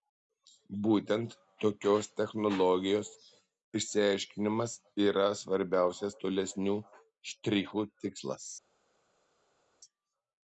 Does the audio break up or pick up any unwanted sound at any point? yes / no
no